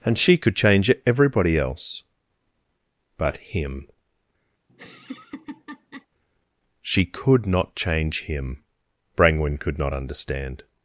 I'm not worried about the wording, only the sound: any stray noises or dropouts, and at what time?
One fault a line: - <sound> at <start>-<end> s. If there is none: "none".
- laugh at 4.7-6.1 s